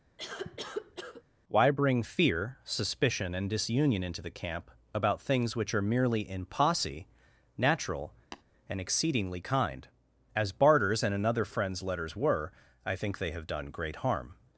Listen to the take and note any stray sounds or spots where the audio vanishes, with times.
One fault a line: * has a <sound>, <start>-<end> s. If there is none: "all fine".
* has a cough, 0.2-1.2 s
* has a tap, 8.3-8.4 s